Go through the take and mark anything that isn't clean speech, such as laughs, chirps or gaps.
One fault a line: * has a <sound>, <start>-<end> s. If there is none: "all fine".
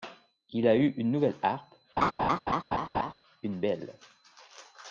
* has a laugh, 2.0-3.1 s